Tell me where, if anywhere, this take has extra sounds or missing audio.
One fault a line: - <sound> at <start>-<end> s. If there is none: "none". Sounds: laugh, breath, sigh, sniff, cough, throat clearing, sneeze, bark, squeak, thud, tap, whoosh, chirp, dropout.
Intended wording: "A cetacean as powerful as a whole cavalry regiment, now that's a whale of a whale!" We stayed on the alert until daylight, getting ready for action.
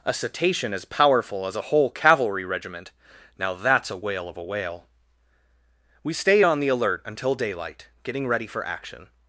none